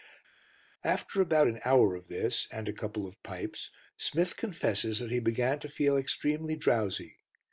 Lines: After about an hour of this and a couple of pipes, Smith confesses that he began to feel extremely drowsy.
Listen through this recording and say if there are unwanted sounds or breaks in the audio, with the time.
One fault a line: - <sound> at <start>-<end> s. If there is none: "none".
none